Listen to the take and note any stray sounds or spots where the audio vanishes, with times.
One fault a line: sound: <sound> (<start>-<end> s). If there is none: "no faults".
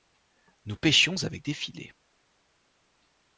no faults